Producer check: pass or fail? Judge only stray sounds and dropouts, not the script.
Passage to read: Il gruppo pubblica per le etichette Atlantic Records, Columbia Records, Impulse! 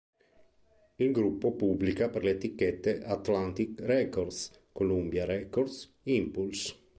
pass